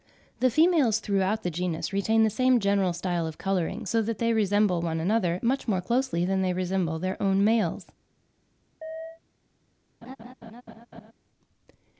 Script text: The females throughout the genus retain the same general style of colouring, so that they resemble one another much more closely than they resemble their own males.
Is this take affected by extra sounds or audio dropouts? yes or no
yes